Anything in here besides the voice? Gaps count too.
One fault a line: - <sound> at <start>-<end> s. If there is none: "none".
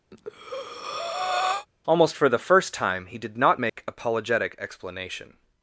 - breath at 0.1-1.7 s
- dropout at 3.7-3.8 s